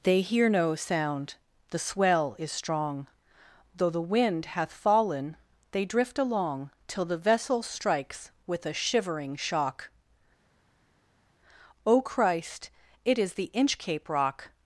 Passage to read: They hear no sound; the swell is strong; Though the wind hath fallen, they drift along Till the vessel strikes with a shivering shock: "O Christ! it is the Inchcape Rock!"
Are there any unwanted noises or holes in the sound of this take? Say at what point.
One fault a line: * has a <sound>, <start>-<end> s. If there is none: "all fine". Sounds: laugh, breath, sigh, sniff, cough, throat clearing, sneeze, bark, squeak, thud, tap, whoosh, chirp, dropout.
all fine